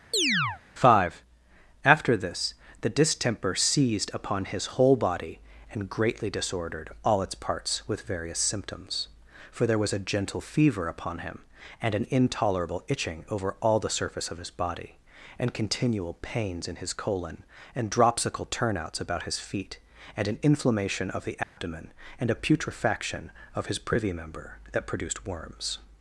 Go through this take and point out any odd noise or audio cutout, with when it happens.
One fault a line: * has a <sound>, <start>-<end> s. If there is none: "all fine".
* has a chirp, 0.1-0.6 s
* has a dropout, 21.4-21.6 s